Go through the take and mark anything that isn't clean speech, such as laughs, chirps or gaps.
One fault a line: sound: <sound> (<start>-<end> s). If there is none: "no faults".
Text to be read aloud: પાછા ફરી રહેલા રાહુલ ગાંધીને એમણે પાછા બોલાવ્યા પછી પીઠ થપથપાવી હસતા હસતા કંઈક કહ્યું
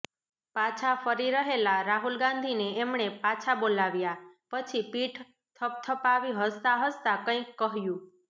no faults